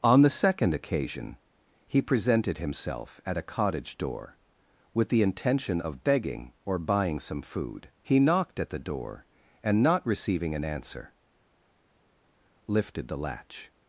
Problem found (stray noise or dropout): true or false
false